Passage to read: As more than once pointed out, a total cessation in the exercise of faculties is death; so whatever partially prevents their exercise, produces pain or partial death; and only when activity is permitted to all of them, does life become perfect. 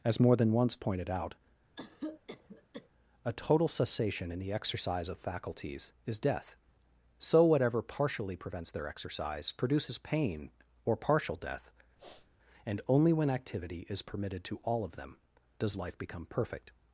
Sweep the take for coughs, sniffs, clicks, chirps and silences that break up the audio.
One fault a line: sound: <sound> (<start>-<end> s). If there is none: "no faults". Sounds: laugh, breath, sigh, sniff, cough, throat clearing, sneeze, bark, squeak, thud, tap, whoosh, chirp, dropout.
sound: cough (1.8-2.9 s)
sound: sniff (12.0-12.4 s)